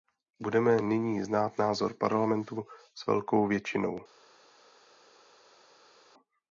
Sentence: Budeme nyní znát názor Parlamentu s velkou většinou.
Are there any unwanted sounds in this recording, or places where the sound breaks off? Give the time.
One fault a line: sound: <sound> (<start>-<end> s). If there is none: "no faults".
no faults